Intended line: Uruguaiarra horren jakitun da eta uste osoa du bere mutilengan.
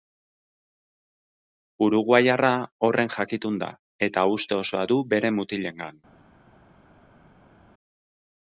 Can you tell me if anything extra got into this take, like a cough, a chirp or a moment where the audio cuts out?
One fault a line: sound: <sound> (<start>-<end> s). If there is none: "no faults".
no faults